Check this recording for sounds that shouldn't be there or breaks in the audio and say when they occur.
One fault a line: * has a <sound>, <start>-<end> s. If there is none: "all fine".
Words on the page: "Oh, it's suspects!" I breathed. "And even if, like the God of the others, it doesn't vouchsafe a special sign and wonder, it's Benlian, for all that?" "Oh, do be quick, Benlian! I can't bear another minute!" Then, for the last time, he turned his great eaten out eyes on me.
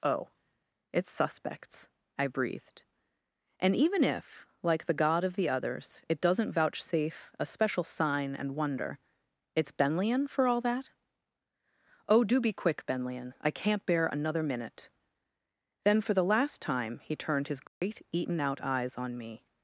* has a dropout, 17.7-17.8 s